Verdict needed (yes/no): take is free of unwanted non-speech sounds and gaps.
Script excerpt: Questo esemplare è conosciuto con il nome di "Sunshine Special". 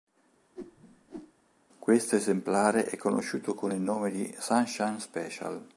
no